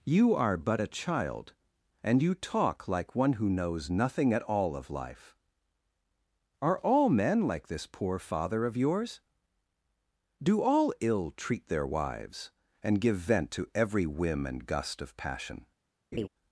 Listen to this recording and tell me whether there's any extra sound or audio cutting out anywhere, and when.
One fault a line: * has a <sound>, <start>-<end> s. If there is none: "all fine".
* has a laugh, 16.1-16.3 s